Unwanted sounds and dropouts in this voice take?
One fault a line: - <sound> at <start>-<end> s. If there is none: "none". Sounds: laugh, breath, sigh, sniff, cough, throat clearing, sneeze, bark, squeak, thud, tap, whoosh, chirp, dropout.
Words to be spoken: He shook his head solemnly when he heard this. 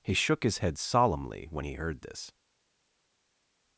none